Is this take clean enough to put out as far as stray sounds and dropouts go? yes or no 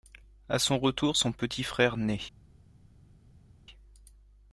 yes